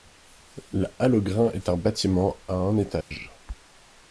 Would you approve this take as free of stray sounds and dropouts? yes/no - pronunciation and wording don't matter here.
no